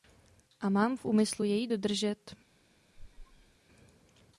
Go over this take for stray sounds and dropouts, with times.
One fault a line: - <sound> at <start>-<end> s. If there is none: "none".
- squeak at 2.9-3.6 s